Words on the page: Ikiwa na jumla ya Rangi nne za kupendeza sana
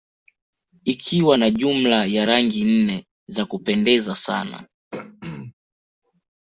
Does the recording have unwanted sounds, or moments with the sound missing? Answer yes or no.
yes